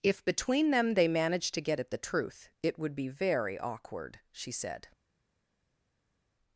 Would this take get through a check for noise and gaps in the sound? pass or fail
pass